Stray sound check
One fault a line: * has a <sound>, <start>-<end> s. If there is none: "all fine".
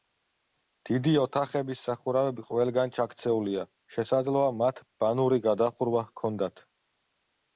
all fine